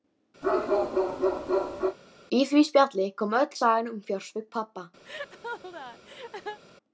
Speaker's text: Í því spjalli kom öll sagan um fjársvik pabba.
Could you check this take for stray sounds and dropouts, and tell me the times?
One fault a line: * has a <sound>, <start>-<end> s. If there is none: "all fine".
* has a bark, 0.4-2.0 s
* has a laugh, 5.0-6.6 s